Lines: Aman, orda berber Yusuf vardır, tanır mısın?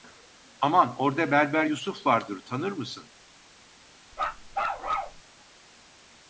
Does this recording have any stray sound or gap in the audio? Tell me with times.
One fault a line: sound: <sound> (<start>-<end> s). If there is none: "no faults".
sound: bark (4.1-5.2 s)